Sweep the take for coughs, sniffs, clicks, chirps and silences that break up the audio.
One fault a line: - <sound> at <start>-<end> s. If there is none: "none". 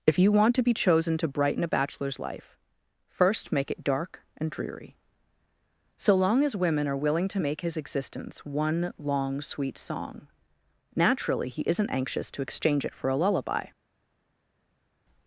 none